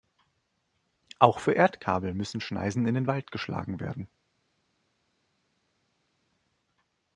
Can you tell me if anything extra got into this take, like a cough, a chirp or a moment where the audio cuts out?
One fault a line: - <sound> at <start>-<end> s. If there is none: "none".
none